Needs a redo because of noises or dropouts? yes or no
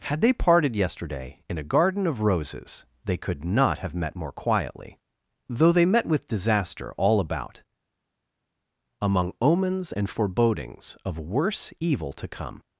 no